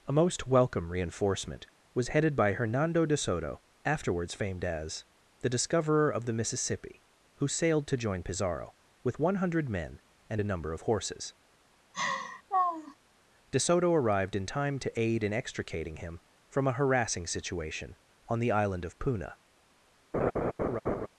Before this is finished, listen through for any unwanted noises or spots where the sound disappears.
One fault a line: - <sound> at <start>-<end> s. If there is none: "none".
- laugh at 11.9-12.9 s
- laugh at 20.1-21.1 s